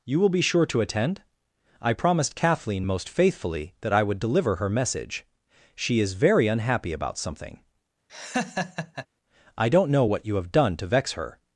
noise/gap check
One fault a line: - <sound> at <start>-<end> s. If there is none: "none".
- laugh at 8.1-9.1 s